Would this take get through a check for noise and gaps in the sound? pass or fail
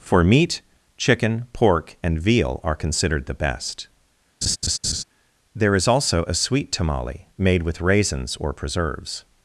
fail